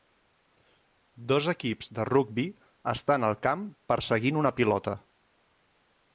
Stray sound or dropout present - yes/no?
no